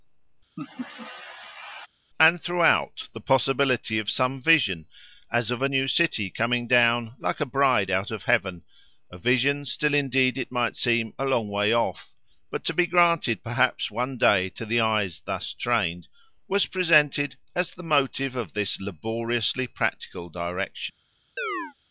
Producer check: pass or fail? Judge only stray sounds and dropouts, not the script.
fail